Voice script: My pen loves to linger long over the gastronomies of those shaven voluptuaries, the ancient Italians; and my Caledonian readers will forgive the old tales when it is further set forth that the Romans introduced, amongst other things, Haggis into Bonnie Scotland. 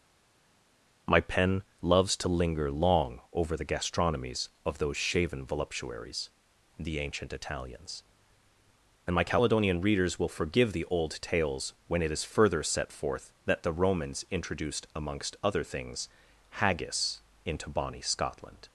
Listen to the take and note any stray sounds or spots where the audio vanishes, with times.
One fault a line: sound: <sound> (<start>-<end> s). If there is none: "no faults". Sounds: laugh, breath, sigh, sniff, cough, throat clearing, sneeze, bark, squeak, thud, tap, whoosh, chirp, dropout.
no faults